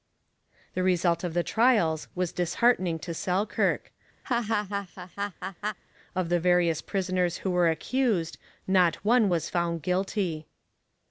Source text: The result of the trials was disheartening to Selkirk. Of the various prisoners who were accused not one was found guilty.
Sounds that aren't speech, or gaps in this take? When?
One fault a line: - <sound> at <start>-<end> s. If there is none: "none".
- laugh at 4.2-5.8 s